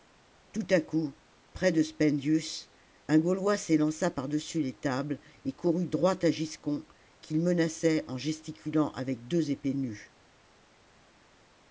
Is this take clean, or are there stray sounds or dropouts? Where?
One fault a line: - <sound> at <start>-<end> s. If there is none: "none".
none